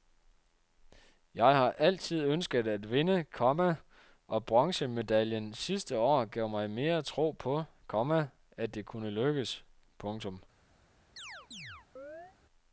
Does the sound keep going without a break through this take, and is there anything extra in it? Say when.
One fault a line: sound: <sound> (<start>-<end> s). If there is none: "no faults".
sound: chirp (11.2-12.4 s)